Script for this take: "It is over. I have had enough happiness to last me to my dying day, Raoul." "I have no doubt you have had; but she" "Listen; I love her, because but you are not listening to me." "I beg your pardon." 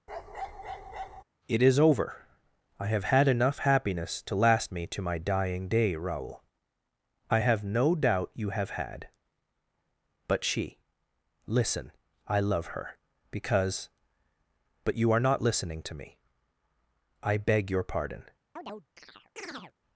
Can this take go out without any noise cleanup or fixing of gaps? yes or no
no